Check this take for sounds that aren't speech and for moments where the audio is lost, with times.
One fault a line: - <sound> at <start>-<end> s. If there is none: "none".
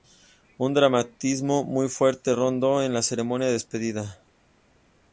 none